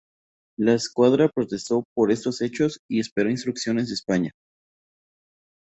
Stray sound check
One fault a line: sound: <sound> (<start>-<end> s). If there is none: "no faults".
no faults